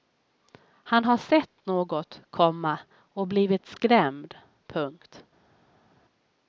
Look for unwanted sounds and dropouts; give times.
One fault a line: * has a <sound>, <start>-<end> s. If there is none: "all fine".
all fine